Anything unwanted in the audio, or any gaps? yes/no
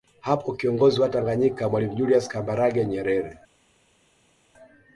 no